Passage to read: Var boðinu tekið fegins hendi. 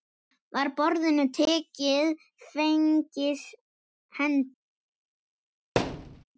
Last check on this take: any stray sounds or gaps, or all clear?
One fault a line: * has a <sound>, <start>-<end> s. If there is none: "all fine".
* has a thud, 5.8-6.2 s